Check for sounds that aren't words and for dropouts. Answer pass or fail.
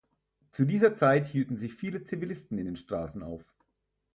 pass